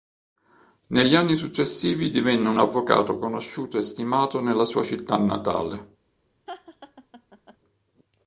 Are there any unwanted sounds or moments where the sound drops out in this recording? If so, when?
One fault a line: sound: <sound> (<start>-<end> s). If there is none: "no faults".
sound: laugh (6.5-7.6 s)